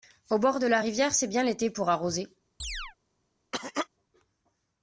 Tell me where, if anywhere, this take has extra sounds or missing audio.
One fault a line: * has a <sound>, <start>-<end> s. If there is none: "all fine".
* has a chirp, 2.6-3.0 s
* has a cough, 3.5-3.9 s